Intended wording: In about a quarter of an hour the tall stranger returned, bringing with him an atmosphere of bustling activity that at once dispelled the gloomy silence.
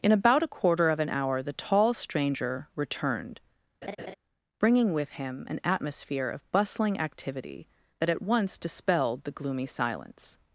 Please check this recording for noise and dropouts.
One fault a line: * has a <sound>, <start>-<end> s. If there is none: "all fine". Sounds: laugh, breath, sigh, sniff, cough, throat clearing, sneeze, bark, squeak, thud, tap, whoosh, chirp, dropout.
* has a laugh, 3.8-4.1 s